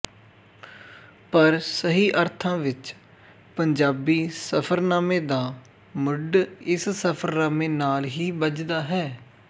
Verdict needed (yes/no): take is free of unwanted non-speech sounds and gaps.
yes